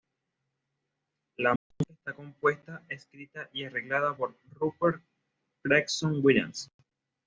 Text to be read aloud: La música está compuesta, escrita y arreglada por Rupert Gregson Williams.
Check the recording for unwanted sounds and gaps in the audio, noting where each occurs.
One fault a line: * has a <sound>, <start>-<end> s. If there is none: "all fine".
* has a dropout, 1.6-1.7 s